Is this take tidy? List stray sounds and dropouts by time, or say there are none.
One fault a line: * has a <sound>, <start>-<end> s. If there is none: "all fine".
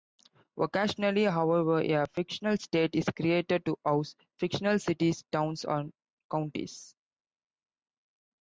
all fine